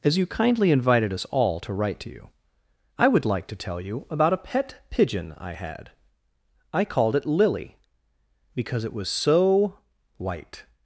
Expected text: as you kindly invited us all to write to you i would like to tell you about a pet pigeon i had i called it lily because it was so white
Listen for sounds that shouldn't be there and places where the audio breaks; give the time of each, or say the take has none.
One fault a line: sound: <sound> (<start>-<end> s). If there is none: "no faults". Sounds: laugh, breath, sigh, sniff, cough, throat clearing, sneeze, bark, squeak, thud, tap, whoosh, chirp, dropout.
no faults